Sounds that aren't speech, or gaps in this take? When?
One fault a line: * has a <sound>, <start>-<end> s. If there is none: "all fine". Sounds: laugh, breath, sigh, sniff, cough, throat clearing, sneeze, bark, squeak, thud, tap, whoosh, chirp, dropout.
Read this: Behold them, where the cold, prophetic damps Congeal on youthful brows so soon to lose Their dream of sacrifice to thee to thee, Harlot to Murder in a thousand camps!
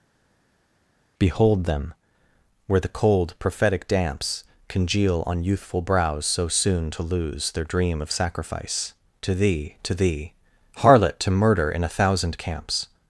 all fine